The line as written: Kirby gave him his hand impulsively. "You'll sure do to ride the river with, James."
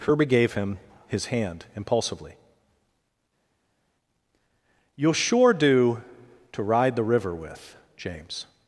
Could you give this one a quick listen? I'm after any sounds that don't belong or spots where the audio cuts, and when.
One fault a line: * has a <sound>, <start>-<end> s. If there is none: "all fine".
all fine